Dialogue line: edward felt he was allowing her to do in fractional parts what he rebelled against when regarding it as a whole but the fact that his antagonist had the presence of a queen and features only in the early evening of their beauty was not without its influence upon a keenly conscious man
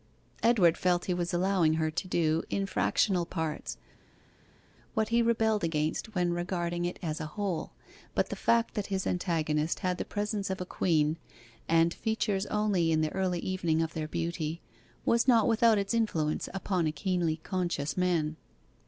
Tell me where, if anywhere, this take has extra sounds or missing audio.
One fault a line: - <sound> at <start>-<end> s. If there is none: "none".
none